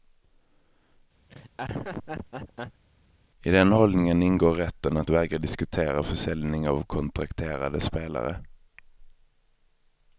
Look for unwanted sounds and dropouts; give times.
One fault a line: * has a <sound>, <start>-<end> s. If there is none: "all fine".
* has a laugh, 1.3-2.8 s